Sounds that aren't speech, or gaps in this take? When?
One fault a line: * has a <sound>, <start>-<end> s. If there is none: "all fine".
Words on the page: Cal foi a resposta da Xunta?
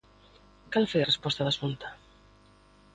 all fine